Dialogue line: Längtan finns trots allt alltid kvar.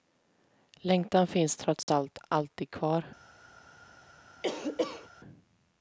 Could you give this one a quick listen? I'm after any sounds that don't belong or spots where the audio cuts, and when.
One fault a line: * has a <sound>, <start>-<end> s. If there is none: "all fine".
* has a dropout, 1.8-1.9 s
* has a cough, 4.4-5.1 s